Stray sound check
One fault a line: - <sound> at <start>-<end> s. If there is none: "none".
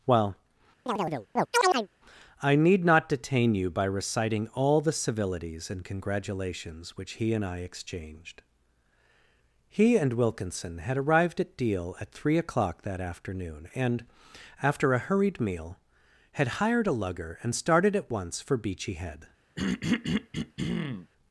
- chirp at 0.9-1.9 s
- throat clearing at 19.6-21.1 s